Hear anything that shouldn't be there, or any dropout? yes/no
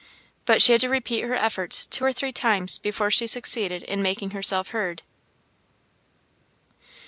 no